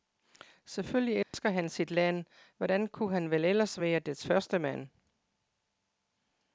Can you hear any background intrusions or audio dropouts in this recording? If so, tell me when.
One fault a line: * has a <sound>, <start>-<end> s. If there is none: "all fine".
* has a dropout, 1.2-1.3 s